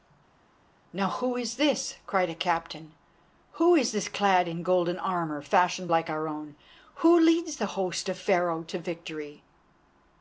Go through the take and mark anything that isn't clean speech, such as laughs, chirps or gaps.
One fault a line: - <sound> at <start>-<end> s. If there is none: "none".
none